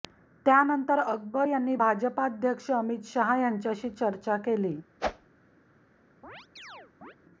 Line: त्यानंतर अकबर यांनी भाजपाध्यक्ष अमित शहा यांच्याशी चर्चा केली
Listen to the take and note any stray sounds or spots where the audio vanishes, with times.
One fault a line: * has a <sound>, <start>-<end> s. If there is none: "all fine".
* has a whoosh, 5.0-5.3 s
* has a chirp, 6.2-7.1 s